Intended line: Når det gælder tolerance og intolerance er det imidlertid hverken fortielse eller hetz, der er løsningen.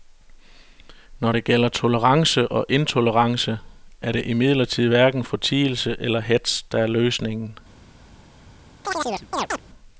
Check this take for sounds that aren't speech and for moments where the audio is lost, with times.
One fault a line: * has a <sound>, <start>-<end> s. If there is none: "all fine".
* has a chirp, 8.8-9.6 s